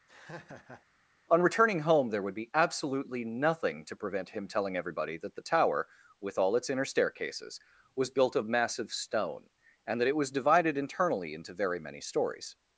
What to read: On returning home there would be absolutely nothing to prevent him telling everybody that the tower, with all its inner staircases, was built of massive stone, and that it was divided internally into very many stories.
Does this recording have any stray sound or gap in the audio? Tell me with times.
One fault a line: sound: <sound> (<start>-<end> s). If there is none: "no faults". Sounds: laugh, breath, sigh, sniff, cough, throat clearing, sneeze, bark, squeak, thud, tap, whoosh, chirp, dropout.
sound: laugh (0.1-0.8 s)